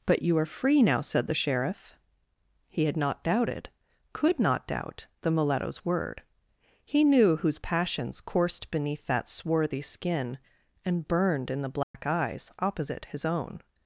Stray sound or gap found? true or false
true